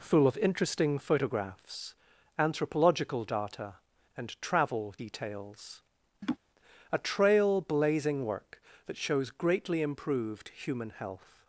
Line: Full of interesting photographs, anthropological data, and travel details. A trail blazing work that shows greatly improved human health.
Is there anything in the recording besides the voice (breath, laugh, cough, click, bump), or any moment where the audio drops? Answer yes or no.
yes